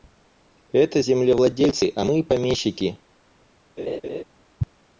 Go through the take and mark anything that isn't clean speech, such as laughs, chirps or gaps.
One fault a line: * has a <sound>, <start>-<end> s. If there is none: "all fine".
* has a laugh, 3.8-4.2 s